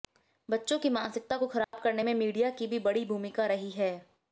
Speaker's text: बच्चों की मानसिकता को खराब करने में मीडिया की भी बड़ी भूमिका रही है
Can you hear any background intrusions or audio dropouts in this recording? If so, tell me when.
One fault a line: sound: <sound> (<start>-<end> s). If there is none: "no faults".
sound: dropout (1.6-1.7 s)